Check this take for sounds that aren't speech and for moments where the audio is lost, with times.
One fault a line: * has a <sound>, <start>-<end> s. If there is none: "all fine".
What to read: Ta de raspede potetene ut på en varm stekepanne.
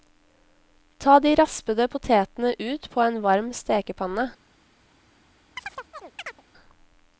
* has a chirp, 5.6-6.4 s